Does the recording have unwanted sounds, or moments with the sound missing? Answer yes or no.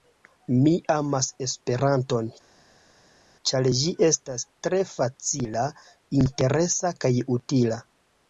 no